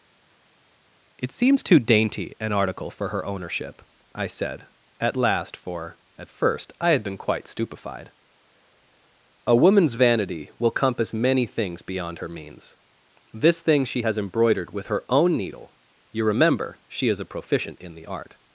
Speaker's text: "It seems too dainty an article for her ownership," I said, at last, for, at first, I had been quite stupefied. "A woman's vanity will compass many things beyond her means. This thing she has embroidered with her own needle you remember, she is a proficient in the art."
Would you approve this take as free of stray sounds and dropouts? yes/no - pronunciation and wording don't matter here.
yes